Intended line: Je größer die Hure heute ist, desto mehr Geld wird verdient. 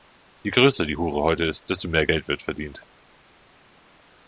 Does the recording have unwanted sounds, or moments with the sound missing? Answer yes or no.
no